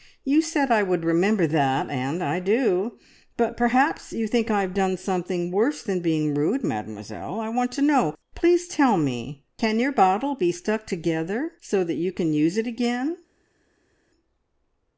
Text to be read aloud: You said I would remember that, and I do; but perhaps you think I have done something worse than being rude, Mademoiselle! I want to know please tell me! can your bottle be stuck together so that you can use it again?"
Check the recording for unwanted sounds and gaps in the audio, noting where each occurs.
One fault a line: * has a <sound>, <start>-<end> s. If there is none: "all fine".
all fine